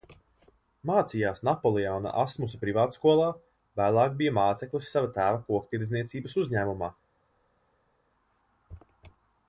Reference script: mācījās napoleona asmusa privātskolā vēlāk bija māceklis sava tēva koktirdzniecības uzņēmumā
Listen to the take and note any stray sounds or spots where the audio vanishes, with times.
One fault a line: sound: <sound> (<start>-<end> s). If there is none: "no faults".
no faults